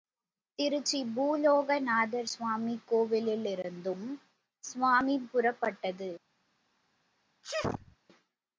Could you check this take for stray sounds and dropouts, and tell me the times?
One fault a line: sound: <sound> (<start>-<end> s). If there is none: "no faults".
sound: sneeze (7.4-8.0 s)